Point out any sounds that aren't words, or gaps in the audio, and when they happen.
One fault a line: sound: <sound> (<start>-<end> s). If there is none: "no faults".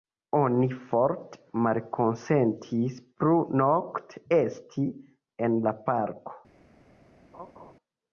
sound: laugh (7.3-7.7 s)